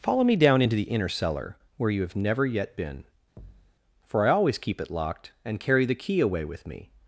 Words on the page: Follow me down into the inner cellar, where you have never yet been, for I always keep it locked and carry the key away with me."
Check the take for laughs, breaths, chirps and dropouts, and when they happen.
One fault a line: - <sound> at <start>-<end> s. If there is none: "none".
- thud at 3.4-3.7 s